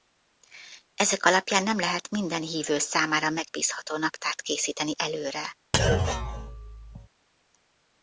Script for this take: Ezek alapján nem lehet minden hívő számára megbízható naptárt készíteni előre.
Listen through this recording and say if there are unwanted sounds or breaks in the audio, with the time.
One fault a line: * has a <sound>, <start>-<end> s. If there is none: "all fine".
* has a thud, 5.7-7.1 s